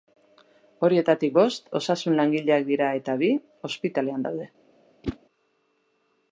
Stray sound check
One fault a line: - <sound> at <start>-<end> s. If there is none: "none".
- whoosh at 5.0-5.2 s